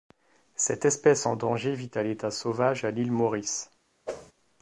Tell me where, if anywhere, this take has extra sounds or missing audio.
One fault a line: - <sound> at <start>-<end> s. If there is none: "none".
- whoosh at 4.1-4.3 s